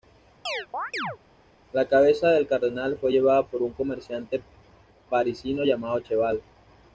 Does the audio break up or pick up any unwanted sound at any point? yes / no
yes